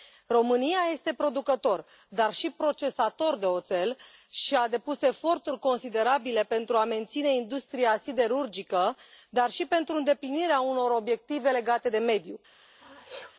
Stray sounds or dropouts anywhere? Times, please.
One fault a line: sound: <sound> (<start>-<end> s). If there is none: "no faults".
sound: sneeze (12.8-13.3 s)